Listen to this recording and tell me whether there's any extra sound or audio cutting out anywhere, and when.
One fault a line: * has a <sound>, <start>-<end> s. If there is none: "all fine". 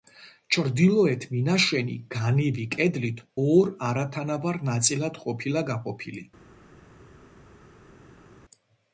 all fine